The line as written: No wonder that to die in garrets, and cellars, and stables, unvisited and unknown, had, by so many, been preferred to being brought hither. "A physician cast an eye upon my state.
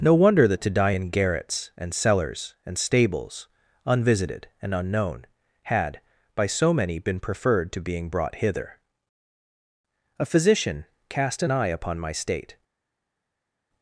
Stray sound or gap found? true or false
false